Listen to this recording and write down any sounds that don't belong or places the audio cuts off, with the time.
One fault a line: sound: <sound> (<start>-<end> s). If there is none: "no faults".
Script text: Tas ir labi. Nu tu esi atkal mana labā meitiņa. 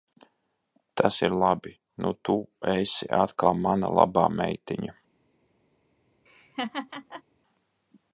sound: laugh (6.3-7.2 s)